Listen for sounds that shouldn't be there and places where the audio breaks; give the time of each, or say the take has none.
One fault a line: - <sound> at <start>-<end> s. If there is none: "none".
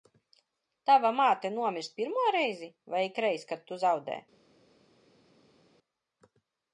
none